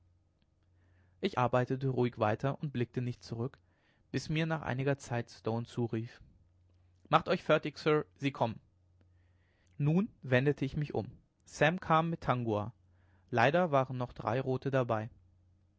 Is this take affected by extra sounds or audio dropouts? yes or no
no